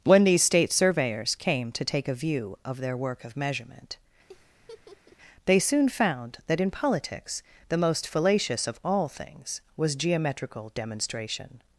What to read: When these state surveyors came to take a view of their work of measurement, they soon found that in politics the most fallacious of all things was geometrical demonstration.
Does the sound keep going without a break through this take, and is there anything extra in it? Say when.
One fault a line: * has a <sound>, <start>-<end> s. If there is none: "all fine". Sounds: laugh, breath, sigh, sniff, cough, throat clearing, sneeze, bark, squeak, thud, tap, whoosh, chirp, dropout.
* has a laugh, 4.3-5.2 s